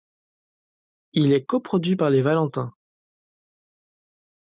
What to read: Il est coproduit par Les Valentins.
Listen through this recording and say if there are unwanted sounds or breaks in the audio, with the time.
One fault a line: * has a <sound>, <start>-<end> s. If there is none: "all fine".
all fine